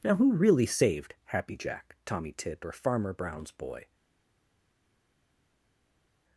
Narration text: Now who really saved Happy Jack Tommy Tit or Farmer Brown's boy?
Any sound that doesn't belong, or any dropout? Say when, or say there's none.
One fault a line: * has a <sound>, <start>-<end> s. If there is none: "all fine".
all fine